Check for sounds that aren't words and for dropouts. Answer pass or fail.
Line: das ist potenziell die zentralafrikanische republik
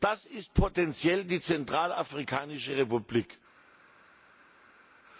pass